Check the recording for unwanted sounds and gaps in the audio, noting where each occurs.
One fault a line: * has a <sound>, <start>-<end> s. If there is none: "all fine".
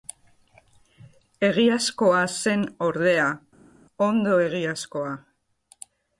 all fine